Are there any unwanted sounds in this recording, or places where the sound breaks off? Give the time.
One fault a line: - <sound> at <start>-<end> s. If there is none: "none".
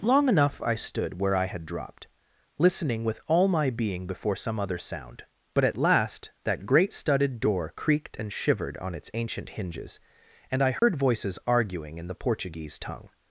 - dropout at 10.8-10.8 s